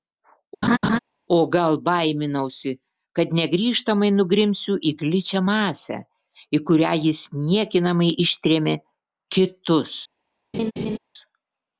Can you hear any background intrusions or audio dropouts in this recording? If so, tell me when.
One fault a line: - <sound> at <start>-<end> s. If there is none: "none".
- laugh at 0.6-1.0 s
- laugh at 10.5-11.0 s